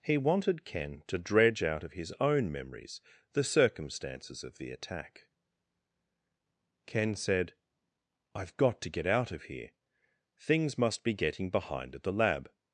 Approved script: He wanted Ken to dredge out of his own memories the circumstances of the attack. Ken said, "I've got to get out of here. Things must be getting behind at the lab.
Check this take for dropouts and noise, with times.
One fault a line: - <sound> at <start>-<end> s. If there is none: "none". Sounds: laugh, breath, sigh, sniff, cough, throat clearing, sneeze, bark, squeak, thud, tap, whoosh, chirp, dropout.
none